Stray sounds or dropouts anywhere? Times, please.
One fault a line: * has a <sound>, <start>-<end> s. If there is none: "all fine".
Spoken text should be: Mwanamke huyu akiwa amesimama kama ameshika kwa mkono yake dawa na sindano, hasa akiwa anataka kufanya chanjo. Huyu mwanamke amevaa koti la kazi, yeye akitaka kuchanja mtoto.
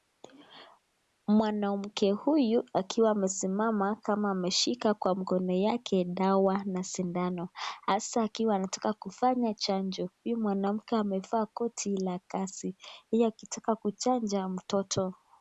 all fine